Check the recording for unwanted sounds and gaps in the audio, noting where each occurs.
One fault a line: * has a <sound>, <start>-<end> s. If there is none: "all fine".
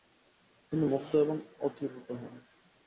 all fine